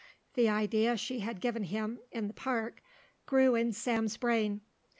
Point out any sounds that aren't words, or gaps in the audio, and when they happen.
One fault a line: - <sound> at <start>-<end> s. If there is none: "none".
none